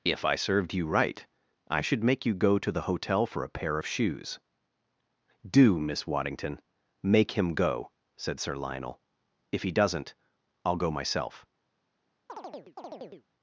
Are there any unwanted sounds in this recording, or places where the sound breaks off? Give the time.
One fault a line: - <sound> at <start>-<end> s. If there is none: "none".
- chirp at 12.3-13.3 s